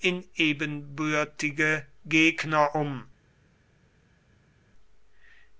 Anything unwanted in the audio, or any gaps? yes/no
no